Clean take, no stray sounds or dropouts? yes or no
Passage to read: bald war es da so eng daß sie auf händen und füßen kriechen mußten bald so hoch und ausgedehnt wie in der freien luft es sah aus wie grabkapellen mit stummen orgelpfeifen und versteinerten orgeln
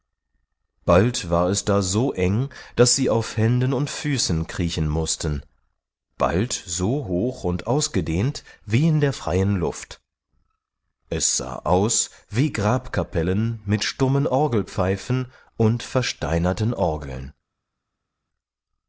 yes